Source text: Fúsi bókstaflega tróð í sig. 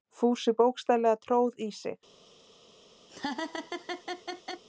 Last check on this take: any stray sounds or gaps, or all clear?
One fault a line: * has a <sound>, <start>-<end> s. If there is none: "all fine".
* has a laugh, 3.1-4.6 s